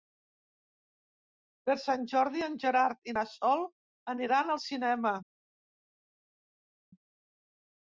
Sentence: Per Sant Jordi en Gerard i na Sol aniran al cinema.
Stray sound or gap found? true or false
false